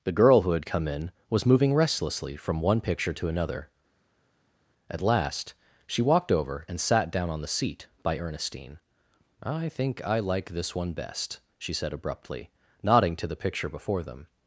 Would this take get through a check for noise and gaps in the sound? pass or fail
pass